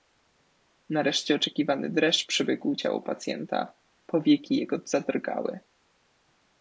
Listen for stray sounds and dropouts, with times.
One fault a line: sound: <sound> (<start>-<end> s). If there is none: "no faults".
no faults